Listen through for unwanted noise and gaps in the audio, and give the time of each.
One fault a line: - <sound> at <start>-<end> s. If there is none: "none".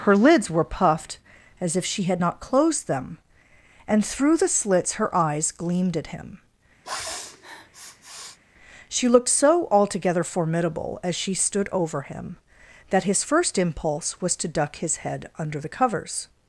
- sniff at 6.8-8.4 s